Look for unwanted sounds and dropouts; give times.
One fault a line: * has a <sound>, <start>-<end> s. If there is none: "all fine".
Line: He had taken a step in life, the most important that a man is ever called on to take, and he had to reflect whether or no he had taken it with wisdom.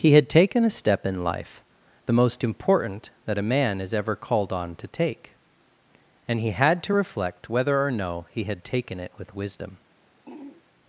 * has a throat clearing, 10.3-10.6 s